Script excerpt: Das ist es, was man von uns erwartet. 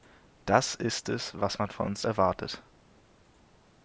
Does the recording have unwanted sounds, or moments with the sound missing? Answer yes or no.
no